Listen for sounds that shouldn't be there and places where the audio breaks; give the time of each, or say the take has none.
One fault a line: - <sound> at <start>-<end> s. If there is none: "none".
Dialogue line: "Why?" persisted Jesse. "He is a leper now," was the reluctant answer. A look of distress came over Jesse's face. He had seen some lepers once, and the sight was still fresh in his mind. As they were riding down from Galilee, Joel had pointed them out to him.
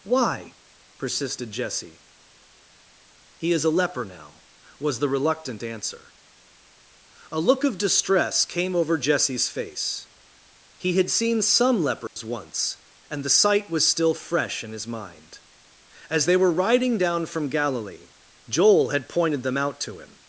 - dropout at 12.1-12.2 s